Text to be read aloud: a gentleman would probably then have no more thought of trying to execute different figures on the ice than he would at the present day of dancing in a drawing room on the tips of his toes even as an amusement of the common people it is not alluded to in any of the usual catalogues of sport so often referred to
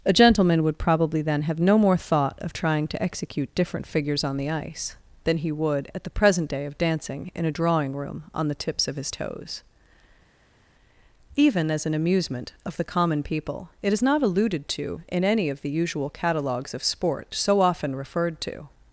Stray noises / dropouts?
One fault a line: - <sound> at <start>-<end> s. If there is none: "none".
none